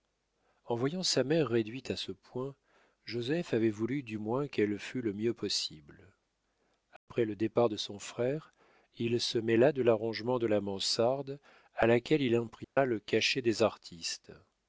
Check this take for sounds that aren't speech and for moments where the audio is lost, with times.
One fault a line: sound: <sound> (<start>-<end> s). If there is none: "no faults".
sound: dropout (7.0-7.1 s)
sound: dropout (12.6-12.8 s)